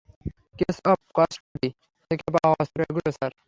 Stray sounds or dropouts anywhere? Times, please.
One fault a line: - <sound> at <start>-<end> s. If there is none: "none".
- dropout at 1.4-1.6 s